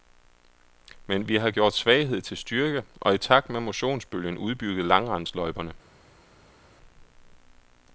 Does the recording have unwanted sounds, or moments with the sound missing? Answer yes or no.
no